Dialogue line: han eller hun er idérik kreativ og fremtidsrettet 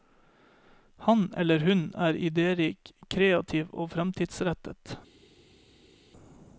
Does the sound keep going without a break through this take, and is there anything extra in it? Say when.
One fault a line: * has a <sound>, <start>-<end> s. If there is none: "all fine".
all fine